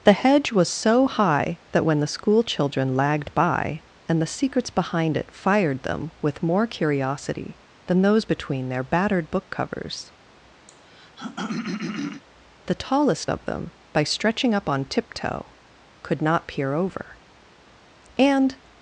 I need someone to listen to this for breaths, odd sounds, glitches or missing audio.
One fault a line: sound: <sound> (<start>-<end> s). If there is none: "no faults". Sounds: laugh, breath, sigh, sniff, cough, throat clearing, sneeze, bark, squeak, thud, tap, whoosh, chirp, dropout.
sound: throat clearing (10.7-12.2 s)